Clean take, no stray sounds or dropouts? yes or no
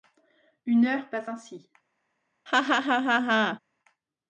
no